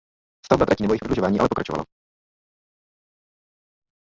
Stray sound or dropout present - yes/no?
no